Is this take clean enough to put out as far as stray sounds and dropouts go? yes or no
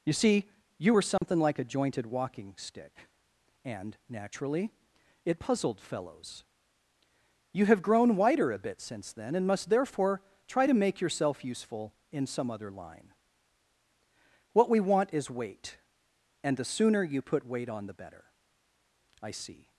no